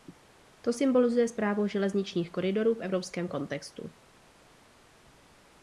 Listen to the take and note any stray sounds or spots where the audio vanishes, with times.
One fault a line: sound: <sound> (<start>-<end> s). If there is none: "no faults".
no faults